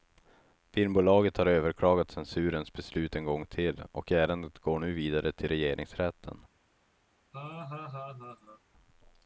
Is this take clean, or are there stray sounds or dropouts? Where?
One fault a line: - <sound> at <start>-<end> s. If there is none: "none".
- laugh at 7.3-8.6 s